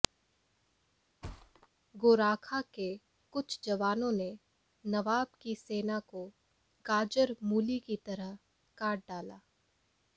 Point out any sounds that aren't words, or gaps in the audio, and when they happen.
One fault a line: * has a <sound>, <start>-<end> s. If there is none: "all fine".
* has a thud, 1.2-1.7 s